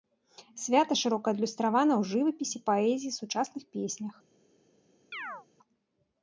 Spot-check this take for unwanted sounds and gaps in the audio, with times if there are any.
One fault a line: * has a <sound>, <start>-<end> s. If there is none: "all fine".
* has a chirp, 5.1-5.5 s